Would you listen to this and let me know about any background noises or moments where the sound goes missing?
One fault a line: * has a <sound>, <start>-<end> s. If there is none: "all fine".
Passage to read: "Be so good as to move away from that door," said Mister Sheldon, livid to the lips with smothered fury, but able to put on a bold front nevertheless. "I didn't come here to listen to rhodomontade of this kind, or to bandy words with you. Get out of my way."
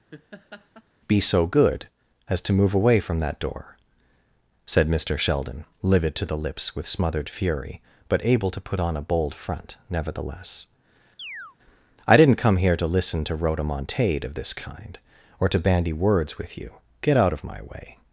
* has a laugh, 0.1-0.8 s
* has a chirp, 11.2-11.6 s